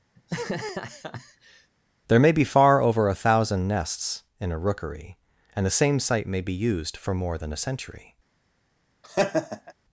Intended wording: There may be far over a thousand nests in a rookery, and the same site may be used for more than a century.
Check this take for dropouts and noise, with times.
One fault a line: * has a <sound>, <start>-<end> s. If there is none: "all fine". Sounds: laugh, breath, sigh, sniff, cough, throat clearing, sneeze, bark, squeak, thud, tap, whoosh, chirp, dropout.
* has a laugh, 0.2-1.7 s
* has a laugh, 9.0-9.7 s